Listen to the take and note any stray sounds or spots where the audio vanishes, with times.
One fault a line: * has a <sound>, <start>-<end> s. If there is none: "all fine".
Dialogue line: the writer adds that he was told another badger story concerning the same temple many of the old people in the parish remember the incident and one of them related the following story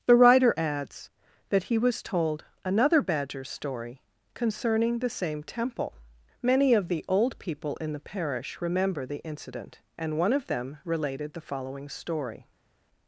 all fine